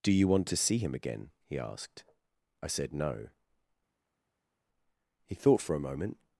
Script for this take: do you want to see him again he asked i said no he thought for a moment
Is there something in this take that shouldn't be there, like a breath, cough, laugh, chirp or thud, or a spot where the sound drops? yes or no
no